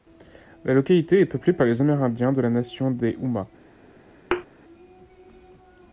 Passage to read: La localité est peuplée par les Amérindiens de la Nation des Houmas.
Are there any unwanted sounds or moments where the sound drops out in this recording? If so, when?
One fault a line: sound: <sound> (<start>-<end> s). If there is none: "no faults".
sound: thud (4.3-4.5 s)